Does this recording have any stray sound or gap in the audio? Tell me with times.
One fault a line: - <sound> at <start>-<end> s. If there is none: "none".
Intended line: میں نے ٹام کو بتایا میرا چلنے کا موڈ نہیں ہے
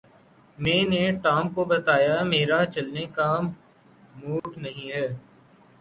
- dropout at 4.4-4.4 s